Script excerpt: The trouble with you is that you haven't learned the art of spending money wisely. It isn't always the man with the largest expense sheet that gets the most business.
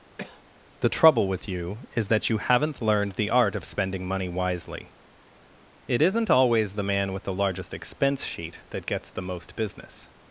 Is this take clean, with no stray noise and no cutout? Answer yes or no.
no